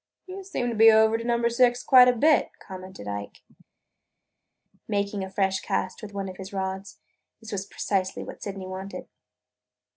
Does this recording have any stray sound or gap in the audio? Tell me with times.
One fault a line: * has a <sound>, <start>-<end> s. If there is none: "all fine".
all fine